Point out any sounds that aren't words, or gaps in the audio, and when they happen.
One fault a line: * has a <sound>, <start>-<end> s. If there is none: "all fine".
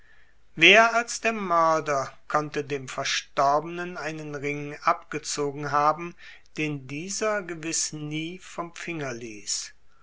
all fine